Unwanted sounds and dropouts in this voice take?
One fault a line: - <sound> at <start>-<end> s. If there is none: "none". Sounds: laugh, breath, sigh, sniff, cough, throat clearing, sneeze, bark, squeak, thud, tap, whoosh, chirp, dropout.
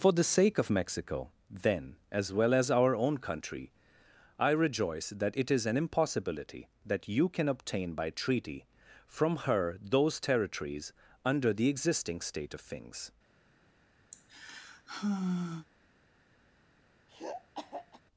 - sigh at 14.1-15.7 s
- throat clearing at 17.1-18.0 s